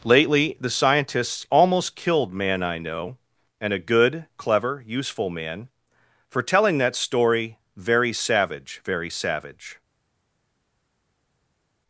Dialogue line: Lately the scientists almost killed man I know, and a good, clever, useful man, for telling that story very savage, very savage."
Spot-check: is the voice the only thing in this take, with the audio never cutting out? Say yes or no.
yes